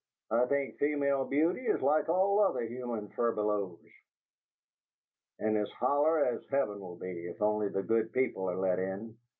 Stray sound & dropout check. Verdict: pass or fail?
pass